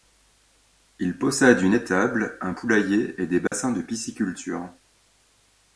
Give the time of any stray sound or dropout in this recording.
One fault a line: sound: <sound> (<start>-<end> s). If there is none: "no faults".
sound: dropout (3.5-3.5 s)